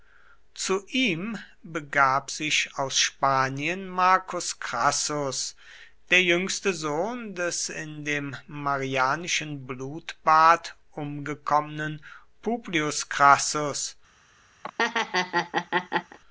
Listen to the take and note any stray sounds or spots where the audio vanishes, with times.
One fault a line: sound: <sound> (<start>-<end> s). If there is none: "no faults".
sound: laugh (14.6-16.2 s)